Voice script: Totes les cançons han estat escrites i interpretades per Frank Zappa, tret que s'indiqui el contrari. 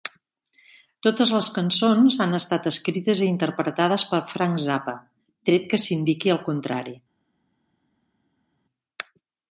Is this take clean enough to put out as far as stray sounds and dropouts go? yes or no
yes